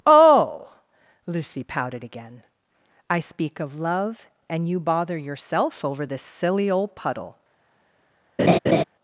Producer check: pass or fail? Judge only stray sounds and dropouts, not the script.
fail